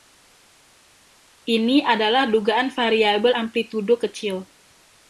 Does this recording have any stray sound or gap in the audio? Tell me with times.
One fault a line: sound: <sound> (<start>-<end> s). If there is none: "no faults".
no faults